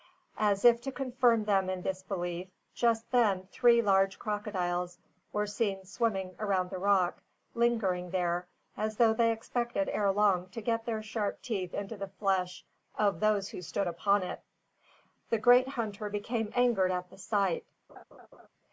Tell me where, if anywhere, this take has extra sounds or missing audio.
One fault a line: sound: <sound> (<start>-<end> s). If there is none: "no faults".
sound: laugh (17.9-18.5 s)